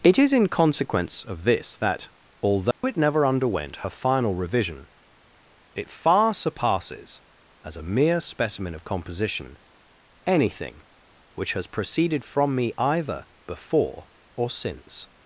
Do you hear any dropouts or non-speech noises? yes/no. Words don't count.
yes